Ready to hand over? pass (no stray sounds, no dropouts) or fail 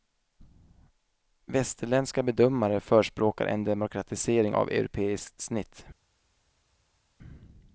pass